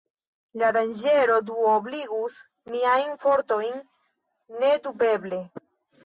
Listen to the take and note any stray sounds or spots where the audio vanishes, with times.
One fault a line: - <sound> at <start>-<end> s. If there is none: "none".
none